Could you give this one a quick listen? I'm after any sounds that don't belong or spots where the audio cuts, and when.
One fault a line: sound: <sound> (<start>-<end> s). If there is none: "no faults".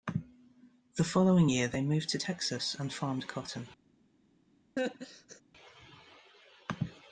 sound: laugh (4.8-5.4 s)